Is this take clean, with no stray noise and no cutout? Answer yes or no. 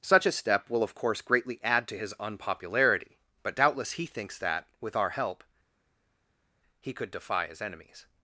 yes